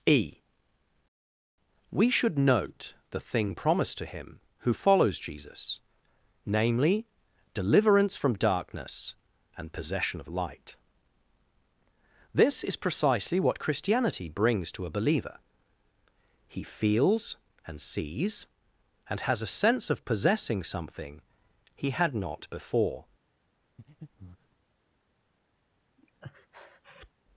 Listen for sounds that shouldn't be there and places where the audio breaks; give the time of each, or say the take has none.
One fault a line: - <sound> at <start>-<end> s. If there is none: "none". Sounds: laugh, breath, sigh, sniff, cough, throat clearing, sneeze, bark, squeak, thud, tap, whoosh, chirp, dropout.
- breath at 23.8-24.6 s
- breath at 26.0-27.1 s